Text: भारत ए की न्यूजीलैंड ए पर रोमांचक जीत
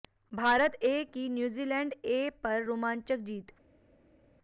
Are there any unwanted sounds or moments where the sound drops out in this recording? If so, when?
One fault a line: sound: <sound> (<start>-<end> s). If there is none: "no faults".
no faults